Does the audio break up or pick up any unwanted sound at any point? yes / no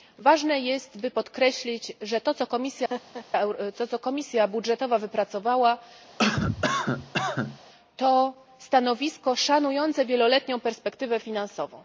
yes